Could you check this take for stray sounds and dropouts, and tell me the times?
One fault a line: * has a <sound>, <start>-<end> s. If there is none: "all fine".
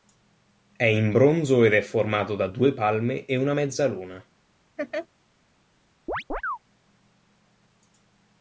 * has a laugh, 4.8-5.1 s
* has a chirp, 6.1-6.6 s